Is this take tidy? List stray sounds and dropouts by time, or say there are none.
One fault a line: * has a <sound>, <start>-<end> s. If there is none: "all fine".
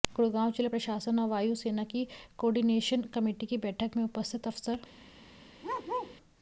* has a bark, 5.6-6.2 s